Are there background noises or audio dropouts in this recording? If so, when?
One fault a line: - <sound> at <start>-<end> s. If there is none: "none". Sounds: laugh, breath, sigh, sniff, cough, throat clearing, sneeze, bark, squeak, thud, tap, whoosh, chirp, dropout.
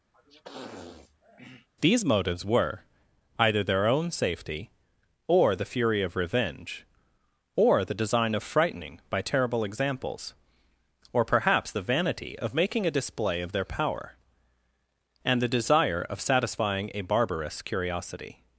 - sniff at 0.1-1.7 s